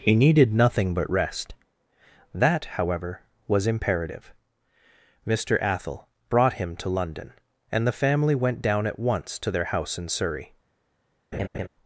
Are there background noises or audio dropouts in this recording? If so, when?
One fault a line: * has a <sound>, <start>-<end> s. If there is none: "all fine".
* has a laugh, 11.3-11.7 s